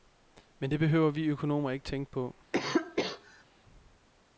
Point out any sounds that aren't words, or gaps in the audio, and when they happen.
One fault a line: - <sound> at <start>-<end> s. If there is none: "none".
- cough at 2.5-3.4 s